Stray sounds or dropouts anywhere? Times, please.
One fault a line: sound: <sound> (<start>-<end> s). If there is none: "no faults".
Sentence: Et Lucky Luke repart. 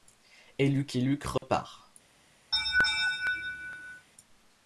sound: dropout (1.4-1.4 s)
sound: laugh (2.5-4.1 s)